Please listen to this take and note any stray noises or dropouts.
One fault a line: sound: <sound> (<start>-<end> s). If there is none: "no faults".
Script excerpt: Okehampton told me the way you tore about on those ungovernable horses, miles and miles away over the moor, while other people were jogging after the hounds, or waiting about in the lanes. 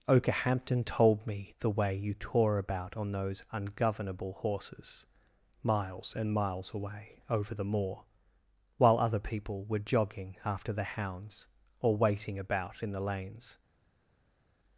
no faults